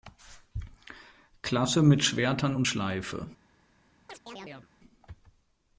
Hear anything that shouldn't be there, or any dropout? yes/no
yes